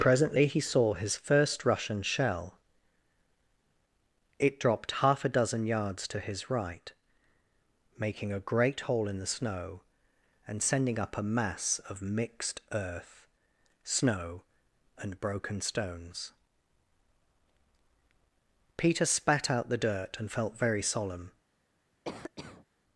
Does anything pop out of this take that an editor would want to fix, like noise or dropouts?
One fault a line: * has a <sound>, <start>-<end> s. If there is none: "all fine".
* has a cough, 22.0-22.7 s